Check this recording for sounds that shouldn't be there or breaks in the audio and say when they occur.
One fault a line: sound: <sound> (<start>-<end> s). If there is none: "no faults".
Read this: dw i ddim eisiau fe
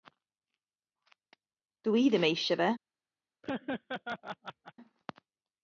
sound: laugh (3.4-4.7 s)